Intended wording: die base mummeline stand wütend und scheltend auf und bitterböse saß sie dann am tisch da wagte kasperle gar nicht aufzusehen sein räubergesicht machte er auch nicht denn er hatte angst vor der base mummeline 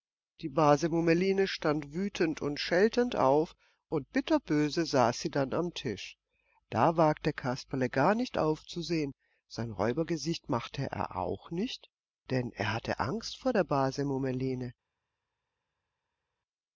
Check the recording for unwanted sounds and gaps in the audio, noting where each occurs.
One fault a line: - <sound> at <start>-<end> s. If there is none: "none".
none